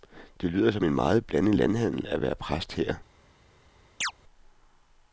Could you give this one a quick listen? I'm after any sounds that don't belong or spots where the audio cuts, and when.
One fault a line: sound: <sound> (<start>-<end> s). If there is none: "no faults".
sound: chirp (4.0-4.1 s)